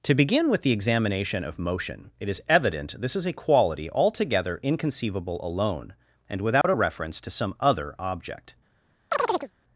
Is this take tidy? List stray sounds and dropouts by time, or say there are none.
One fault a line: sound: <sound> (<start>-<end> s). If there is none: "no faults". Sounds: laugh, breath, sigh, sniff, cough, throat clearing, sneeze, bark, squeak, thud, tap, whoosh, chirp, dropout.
sound: dropout (6.6-6.6 s)
sound: chirp (9.1-9.5 s)